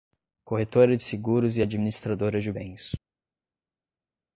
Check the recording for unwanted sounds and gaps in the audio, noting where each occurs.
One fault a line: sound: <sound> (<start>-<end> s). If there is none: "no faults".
no faults